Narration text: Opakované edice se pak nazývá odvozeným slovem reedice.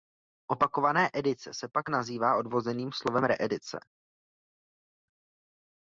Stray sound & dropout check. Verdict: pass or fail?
pass